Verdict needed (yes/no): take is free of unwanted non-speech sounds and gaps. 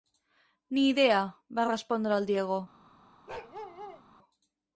no